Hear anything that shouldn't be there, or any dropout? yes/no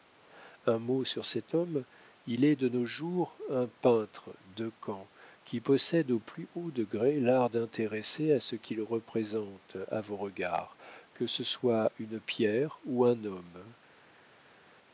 no